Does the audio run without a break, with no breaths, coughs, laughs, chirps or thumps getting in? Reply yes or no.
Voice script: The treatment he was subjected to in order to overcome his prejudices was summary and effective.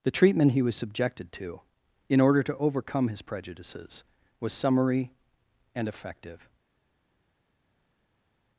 yes